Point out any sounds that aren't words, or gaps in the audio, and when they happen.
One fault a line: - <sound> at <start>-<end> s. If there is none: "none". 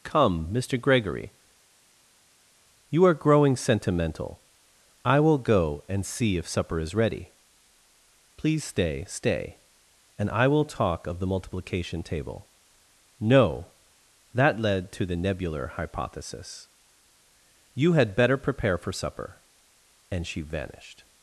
none